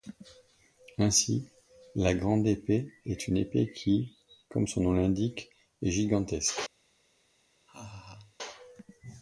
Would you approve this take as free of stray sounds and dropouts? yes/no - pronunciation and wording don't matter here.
no